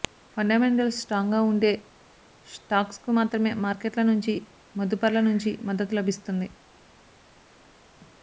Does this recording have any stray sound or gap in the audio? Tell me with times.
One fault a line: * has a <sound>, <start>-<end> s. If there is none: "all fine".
all fine